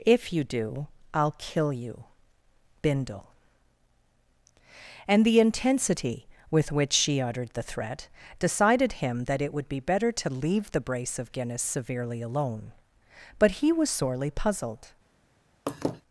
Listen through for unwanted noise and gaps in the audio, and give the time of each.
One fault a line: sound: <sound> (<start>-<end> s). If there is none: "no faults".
sound: laugh (15.7-16.0 s)